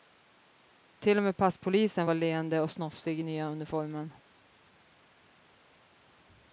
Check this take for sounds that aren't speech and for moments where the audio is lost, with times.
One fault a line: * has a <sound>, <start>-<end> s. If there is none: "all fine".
all fine